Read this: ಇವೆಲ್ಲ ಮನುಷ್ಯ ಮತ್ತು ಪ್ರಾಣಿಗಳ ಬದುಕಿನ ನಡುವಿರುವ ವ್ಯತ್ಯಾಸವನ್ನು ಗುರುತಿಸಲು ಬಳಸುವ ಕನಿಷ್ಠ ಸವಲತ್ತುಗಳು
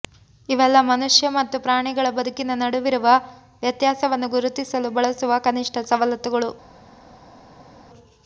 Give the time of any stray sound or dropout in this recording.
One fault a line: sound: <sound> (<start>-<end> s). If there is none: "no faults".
no faults